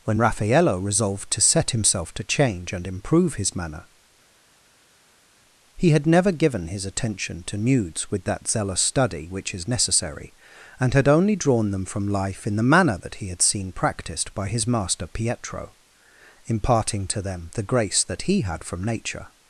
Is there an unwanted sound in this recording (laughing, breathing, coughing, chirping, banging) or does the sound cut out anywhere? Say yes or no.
no